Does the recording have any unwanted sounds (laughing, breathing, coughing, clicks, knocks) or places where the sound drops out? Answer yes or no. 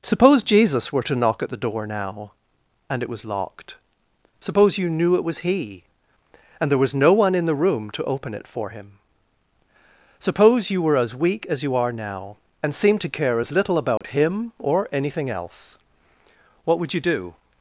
yes